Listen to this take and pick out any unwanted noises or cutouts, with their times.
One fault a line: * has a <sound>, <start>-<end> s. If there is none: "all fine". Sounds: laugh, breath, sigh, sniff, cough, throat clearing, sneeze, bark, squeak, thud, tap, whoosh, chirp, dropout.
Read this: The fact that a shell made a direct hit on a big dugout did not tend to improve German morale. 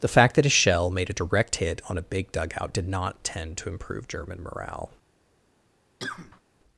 * has a cough, 6.0-6.4 s